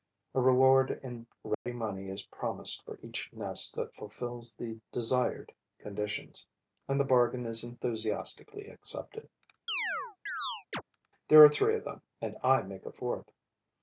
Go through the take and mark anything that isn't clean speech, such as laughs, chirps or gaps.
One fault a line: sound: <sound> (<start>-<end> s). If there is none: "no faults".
sound: dropout (1.5-1.7 s)
sound: chirp (9.7-10.8 s)